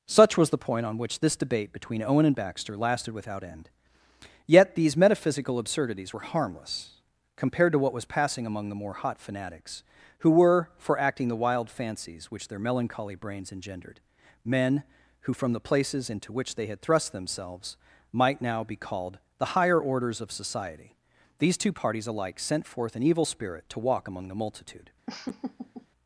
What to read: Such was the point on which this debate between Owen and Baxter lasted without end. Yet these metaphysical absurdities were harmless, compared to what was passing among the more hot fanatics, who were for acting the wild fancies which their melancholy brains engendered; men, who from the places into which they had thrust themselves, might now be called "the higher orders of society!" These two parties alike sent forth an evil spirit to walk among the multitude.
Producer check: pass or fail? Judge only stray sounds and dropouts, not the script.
fail